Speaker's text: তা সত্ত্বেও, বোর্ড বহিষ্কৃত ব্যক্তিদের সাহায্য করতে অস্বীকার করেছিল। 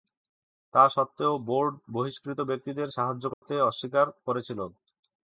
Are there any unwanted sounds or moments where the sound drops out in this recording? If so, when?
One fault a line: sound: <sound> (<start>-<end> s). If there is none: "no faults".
sound: dropout (3.3-3.4 s)